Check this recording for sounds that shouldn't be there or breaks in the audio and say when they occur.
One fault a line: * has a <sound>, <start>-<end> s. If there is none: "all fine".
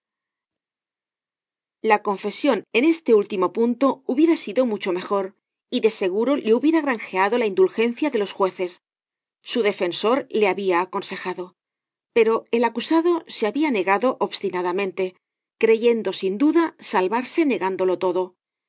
all fine